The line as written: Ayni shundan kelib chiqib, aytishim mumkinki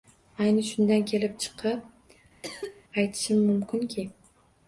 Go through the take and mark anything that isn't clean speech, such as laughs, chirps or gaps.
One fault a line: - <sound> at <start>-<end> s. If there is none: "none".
- cough at 2.4-2.8 s